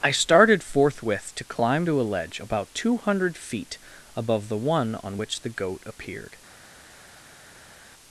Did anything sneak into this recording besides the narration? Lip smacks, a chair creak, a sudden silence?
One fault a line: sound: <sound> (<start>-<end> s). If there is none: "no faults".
no faults